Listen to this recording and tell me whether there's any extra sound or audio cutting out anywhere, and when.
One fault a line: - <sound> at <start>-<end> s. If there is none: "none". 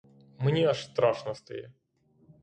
none